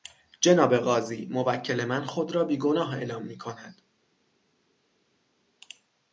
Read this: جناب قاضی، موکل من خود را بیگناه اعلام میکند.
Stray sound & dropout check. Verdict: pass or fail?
pass